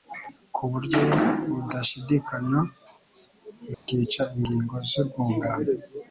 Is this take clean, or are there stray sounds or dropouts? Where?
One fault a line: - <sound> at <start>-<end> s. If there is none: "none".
- dropout at 3.7-3.9 s